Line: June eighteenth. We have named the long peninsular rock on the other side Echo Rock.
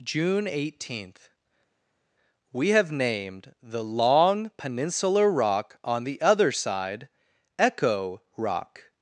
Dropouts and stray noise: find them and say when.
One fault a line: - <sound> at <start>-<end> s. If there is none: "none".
none